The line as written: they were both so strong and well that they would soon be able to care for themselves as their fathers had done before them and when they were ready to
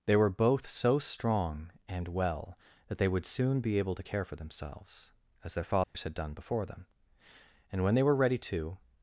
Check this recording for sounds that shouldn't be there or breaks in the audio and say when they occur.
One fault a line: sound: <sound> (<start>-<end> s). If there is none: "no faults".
sound: dropout (5.8-5.9 s)